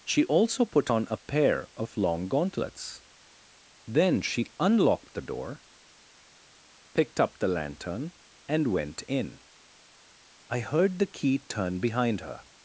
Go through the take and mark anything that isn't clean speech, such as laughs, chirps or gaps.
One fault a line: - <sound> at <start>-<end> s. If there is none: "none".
none